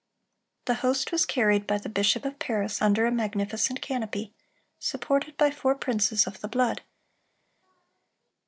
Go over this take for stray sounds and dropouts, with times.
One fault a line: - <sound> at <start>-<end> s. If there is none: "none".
none